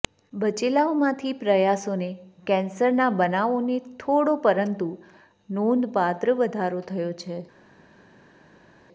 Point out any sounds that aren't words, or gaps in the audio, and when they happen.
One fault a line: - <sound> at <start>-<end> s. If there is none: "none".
none